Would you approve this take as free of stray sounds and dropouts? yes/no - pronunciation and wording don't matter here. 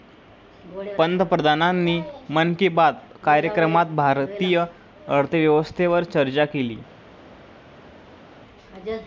yes